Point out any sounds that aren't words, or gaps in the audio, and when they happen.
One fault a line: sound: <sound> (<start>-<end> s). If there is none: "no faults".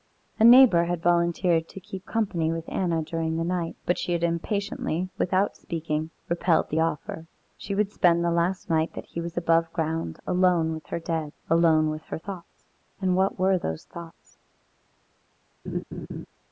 sound: laugh (15.7-16.3 s)